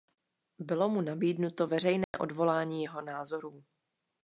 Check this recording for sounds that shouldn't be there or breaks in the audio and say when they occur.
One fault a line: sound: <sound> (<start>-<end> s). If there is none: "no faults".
sound: dropout (2.0-2.1 s)